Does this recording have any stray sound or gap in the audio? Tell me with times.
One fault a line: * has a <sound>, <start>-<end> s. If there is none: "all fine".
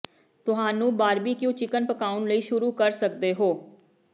all fine